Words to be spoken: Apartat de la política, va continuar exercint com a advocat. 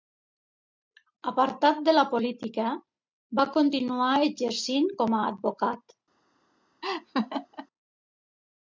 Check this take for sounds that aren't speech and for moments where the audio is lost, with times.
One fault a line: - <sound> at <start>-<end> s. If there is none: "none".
- laugh at 6.8-7.7 s